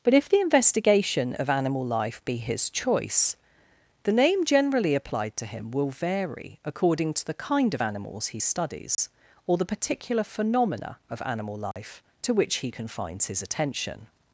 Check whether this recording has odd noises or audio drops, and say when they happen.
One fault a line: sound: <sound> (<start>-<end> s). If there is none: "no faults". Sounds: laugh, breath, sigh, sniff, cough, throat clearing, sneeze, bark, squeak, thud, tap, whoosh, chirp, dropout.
sound: dropout (8.9-9.0 s)
sound: dropout (11.7-11.8 s)